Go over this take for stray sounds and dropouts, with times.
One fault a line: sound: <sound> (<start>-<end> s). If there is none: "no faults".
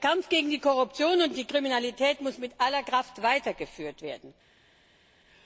no faults